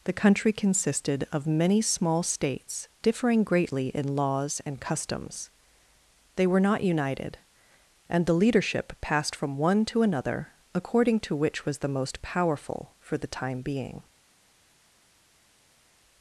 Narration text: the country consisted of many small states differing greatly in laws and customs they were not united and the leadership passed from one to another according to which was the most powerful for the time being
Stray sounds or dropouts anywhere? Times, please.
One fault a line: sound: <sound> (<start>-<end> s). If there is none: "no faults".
no faults